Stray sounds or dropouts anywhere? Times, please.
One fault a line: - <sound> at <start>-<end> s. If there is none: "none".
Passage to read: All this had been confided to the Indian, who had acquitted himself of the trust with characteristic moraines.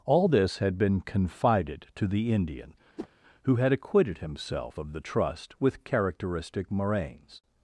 - whoosh at 3.0-3.1 s